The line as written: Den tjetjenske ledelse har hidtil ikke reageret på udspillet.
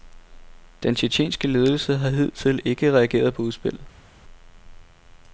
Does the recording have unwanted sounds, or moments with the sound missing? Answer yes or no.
no